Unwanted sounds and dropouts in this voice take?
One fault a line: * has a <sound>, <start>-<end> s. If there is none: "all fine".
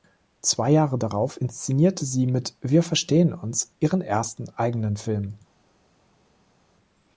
all fine